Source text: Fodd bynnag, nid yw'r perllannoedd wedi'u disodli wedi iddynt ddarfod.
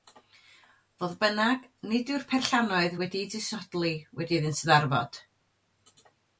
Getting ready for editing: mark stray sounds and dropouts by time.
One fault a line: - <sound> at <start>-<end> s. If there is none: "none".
none